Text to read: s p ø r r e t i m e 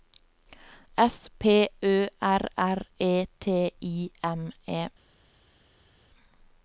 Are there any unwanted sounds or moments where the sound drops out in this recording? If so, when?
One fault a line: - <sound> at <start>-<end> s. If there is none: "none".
none